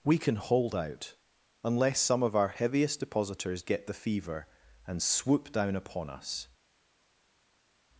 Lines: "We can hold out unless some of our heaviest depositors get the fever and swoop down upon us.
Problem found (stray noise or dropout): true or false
false